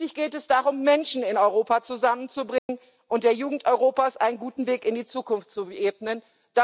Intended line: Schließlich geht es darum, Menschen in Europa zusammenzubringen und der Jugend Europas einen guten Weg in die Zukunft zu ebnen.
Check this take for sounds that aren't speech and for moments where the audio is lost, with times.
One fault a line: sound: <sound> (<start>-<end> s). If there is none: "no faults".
sound: dropout (2.6-2.7 s)